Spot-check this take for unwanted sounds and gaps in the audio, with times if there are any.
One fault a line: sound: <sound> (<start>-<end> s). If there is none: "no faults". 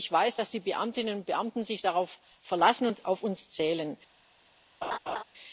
sound: laugh (4.8-5.2 s)